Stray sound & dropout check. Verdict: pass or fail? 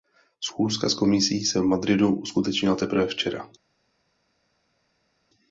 pass